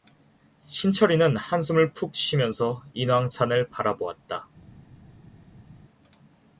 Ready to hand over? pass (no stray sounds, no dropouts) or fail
pass